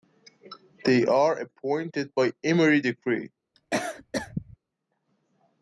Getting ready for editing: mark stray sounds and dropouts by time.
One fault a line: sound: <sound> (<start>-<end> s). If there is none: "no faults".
sound: cough (3.5-4.6 s)